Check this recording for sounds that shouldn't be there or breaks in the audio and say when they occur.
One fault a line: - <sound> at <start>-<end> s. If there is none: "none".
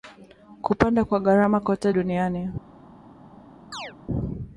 - chirp at 3.7-3.9 s